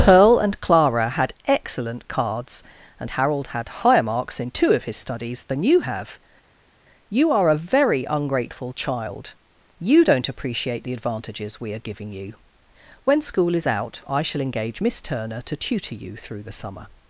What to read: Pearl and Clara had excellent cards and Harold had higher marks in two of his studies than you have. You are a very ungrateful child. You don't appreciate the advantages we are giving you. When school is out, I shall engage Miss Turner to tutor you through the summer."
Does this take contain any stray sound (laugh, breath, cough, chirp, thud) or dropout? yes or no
no